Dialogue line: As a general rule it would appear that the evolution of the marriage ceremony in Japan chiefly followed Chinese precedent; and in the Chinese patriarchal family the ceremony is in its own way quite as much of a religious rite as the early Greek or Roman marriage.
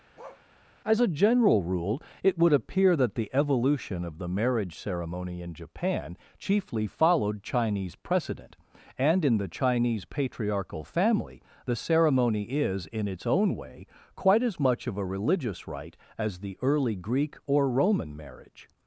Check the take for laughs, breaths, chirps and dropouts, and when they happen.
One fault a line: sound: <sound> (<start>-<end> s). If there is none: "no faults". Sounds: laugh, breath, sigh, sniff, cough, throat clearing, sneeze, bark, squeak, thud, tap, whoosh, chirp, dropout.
sound: bark (0.2-0.5 s)